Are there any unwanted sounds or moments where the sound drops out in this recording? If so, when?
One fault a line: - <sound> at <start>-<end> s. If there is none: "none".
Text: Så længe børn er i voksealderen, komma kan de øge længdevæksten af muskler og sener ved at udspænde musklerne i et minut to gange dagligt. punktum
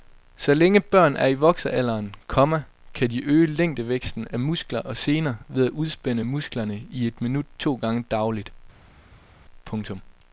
none